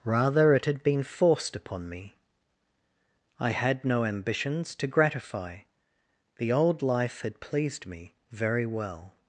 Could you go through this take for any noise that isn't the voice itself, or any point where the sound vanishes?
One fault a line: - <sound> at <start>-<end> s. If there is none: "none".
none